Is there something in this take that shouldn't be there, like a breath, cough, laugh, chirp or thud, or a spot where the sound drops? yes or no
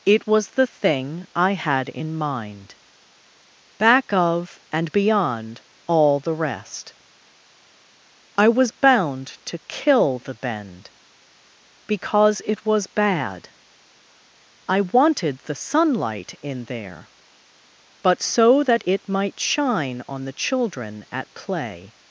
no